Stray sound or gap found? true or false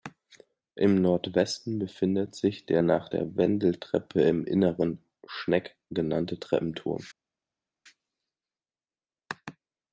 false